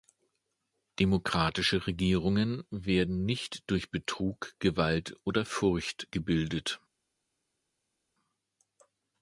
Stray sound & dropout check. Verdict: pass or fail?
pass